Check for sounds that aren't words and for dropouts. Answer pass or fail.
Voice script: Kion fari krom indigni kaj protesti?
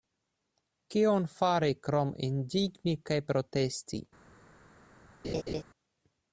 fail